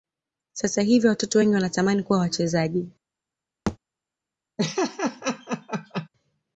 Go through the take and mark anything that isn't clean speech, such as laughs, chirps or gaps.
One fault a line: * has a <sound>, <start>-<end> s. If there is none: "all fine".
* has a thud, 3.7-3.8 s
* has a laugh, 4.6-6.1 s